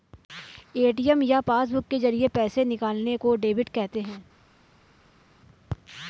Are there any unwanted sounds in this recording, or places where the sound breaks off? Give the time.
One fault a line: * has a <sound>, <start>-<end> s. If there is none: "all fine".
all fine